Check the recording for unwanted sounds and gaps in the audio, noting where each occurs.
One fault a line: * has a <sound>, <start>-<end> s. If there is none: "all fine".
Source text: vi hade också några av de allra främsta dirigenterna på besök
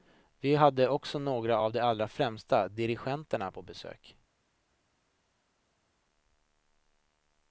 all fine